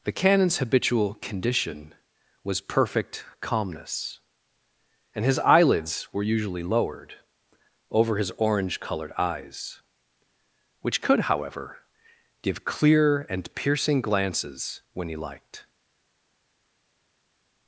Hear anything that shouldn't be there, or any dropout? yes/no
no